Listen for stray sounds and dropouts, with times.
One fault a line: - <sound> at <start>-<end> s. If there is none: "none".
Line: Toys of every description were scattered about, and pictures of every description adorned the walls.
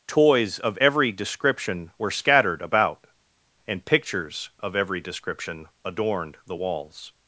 none